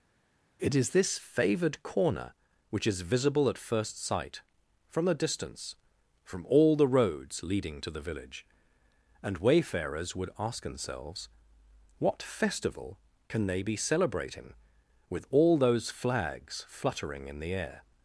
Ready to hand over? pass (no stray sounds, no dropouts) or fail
pass